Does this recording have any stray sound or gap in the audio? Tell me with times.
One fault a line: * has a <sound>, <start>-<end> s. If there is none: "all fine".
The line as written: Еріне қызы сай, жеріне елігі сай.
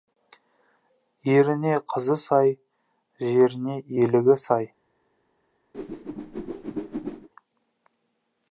* has a whoosh, 5.7-7.3 s